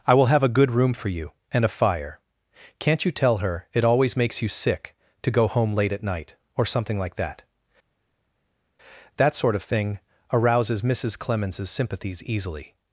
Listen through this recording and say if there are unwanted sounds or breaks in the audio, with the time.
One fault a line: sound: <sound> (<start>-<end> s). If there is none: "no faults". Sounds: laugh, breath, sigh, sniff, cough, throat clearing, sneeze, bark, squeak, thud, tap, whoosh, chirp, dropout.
no faults